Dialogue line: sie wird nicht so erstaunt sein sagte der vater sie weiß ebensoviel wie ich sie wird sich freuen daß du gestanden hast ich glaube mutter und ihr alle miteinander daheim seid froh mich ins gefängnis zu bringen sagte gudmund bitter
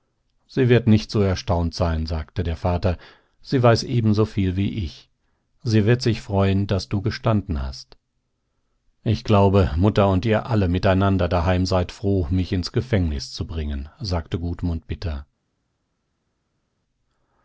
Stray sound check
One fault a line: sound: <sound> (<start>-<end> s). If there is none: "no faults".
no faults